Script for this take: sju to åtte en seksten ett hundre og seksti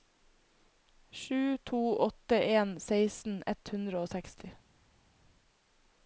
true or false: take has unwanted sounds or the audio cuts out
false